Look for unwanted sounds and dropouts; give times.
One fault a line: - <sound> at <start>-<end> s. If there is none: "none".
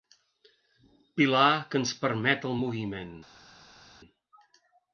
none